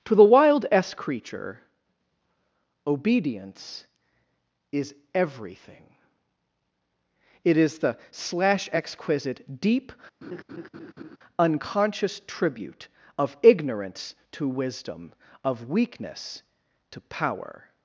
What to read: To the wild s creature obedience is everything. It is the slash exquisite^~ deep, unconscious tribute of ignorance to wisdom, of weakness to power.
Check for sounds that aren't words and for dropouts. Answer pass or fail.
fail